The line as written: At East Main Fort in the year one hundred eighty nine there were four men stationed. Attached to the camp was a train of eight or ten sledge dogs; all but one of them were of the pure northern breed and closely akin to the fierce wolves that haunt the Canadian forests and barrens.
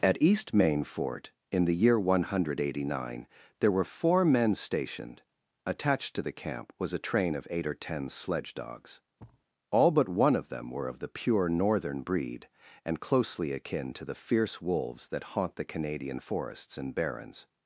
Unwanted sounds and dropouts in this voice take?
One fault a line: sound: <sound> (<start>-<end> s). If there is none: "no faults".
sound: thud (9.2-9.5 s)